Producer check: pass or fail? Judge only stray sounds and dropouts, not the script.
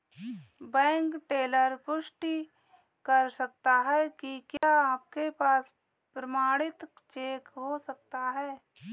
fail